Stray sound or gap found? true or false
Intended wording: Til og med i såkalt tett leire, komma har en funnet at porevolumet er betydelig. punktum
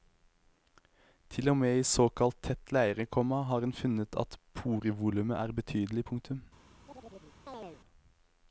true